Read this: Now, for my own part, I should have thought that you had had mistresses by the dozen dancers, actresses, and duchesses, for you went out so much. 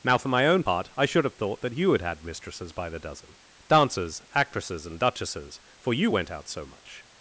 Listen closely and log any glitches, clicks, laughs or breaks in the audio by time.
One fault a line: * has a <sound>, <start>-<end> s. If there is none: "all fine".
all fine